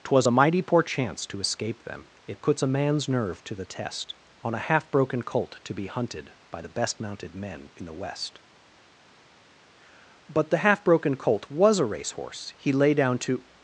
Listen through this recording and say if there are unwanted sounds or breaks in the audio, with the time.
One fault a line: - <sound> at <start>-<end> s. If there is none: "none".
none